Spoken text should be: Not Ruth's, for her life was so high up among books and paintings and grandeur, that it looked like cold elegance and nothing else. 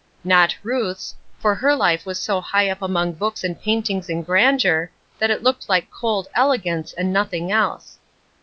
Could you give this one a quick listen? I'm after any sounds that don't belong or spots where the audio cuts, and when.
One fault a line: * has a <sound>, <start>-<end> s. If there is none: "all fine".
all fine